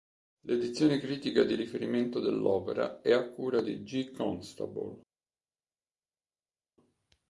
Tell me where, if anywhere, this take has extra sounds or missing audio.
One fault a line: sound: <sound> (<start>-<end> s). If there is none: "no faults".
no faults